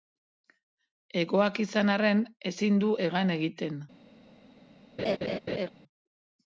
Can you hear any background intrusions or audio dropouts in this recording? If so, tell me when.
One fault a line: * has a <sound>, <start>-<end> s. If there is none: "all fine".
* has a laugh, 5.0-5.7 s